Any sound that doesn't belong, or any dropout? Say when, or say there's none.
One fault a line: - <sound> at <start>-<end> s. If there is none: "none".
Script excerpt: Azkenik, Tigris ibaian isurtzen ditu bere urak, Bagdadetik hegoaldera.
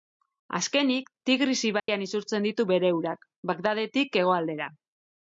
- dropout at 1.8-1.9 s